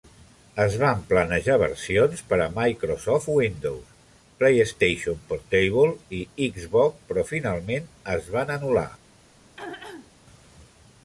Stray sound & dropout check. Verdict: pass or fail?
fail